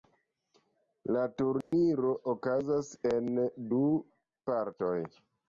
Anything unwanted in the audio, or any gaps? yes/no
yes